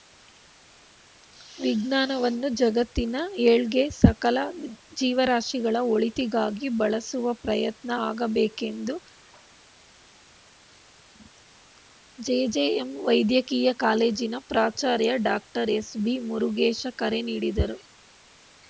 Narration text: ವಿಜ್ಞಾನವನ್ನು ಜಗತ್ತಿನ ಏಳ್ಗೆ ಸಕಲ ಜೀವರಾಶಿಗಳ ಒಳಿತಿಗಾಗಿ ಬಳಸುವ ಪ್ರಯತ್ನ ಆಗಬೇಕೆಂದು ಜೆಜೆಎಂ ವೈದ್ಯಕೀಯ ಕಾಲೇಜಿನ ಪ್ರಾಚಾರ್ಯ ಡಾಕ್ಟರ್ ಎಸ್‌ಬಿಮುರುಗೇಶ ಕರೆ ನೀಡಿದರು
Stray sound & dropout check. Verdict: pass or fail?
pass